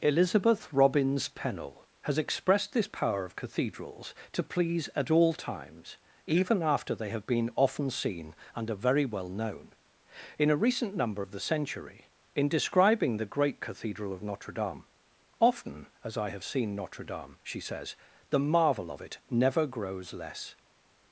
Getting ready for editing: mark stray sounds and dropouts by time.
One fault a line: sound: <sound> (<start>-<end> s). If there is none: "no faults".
no faults